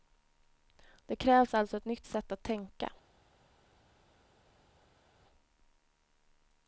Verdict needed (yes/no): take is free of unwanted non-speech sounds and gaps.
yes